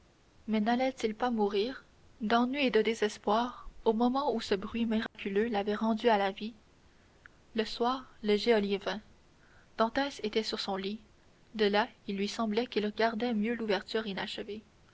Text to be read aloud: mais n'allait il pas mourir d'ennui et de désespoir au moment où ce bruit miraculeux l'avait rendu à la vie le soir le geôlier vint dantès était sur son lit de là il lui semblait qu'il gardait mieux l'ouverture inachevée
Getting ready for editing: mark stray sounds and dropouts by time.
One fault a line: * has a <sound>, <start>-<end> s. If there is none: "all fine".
* has a dropout, 5.1-5.1 s